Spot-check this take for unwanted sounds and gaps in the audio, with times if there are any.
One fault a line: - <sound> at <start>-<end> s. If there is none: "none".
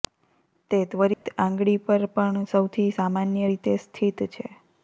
- dropout at 1.1-1.3 s